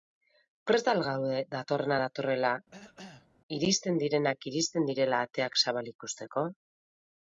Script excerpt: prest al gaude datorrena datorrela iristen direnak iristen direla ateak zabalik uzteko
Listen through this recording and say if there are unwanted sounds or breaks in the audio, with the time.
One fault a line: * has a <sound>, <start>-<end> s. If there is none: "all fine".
* has a cough, 2.7-3.3 s